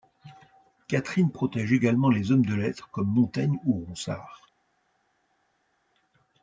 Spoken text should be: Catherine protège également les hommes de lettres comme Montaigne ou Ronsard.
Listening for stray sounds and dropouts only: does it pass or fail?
pass